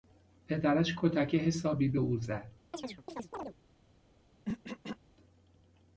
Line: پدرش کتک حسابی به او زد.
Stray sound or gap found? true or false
true